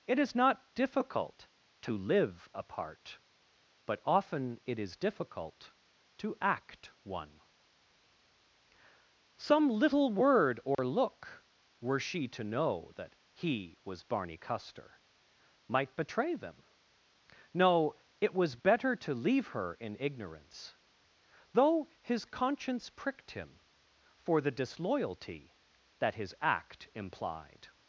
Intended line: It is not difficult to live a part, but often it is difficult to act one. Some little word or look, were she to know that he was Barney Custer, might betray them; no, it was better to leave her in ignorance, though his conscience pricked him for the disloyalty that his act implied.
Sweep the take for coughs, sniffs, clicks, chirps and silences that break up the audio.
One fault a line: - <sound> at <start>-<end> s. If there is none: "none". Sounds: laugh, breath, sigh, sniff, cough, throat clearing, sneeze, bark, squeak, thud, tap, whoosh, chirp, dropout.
- dropout at 10.7-10.8 s